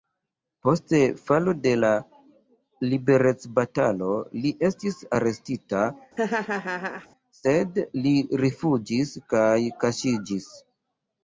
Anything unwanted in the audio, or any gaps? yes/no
yes